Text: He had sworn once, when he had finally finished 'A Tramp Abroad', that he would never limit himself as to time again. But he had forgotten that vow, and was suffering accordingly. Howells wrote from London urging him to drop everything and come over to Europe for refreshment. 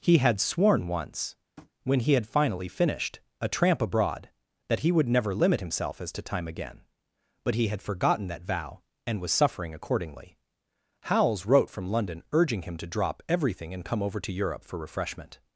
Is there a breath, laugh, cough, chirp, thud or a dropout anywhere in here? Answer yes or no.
yes